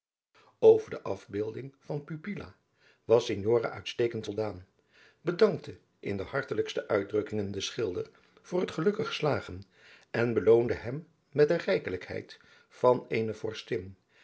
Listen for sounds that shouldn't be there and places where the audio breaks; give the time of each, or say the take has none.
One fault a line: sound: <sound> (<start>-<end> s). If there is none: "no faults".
no faults